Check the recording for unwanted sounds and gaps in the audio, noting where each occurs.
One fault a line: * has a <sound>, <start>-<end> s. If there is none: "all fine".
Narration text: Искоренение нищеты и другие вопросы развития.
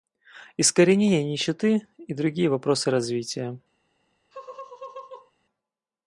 * has a laugh, 4.3-5.3 s